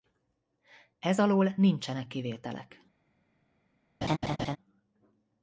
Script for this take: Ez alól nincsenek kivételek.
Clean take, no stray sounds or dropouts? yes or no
no